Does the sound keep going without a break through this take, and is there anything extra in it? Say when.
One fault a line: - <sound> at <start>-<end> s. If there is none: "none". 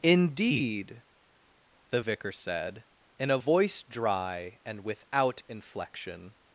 none